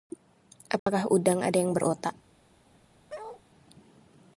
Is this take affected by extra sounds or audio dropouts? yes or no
yes